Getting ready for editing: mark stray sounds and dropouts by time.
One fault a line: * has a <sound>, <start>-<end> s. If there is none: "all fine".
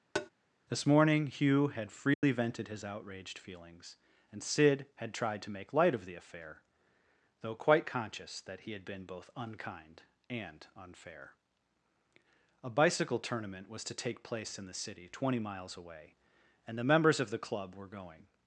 * has a tap, 0.1-0.3 s
* has a dropout, 2.1-2.2 s